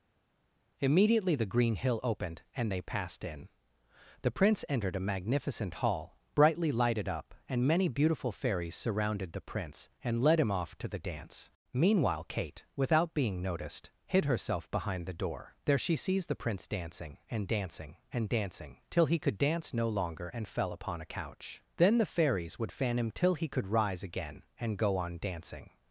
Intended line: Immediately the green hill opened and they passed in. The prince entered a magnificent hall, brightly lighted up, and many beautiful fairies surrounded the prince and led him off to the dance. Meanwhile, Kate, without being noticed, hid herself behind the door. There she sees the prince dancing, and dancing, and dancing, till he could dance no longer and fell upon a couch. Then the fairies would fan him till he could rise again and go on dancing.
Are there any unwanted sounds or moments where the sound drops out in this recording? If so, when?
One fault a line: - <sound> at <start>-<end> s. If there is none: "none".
none